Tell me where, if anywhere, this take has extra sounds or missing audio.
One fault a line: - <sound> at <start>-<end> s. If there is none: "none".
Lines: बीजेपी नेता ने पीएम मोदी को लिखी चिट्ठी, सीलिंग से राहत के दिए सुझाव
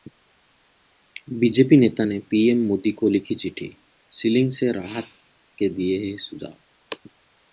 none